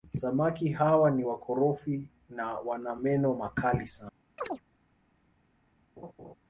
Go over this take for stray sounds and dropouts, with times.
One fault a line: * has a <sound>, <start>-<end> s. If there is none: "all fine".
* has a chirp, 4.4-4.6 s
* has a laugh, 6.0-6.3 s